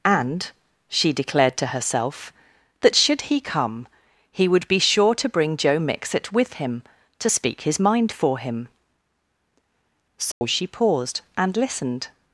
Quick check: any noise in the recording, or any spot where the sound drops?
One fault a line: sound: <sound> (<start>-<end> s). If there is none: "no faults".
sound: dropout (10.3-10.4 s)